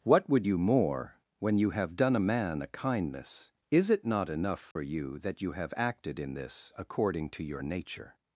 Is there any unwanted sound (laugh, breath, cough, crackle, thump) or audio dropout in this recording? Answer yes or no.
yes